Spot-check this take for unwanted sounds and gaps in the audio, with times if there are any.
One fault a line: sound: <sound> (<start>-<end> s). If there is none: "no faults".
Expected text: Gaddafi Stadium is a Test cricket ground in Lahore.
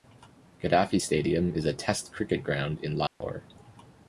sound: dropout (3.1-3.2 s)